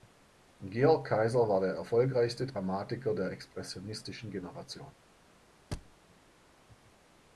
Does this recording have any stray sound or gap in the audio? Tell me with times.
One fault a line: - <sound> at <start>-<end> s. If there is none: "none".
- thud at 5.7-6.0 s